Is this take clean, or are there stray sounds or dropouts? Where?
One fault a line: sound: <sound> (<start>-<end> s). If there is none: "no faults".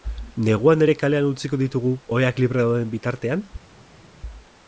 no faults